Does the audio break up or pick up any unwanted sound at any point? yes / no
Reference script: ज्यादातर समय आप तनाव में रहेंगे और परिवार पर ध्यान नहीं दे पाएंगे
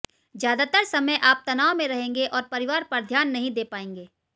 no